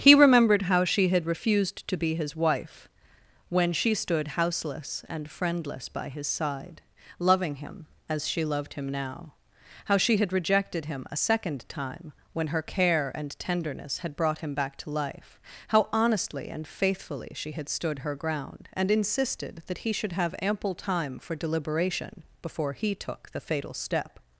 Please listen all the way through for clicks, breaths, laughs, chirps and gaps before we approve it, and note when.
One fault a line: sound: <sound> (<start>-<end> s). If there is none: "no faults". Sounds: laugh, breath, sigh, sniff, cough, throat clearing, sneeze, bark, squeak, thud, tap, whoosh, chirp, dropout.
no faults